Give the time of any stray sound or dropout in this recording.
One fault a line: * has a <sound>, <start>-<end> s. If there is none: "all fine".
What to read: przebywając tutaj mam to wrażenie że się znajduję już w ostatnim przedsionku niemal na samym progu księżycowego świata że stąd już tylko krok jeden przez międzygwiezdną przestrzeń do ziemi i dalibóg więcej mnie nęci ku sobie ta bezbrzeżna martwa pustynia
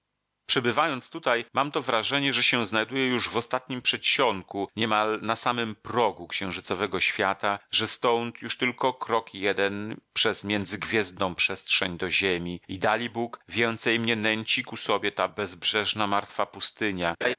* has a laugh, 17.2-17.4 s